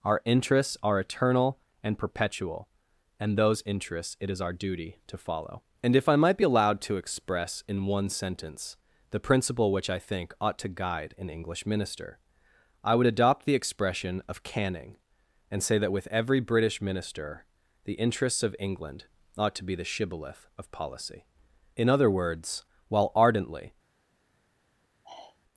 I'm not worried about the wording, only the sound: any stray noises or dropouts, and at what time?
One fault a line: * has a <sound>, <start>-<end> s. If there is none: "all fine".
* has a sigh, 25.0-25.4 s